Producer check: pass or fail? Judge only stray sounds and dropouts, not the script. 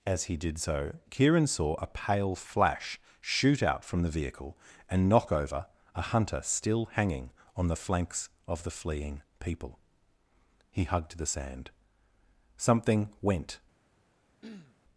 fail